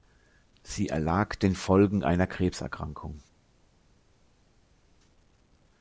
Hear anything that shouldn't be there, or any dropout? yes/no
no